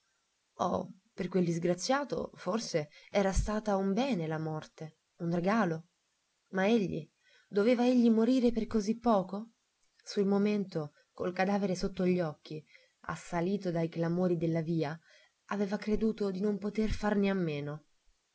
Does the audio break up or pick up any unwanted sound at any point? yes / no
no